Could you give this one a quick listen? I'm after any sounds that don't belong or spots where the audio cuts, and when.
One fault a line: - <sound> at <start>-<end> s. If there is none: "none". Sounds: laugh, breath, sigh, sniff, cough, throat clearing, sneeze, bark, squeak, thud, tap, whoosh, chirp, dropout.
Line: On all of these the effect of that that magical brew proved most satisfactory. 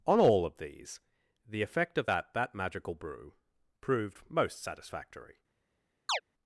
- chirp at 6.1-6.2 s